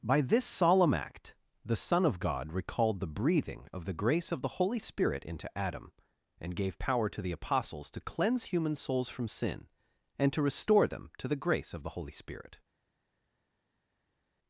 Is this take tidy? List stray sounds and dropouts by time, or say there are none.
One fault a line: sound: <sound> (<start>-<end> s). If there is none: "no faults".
no faults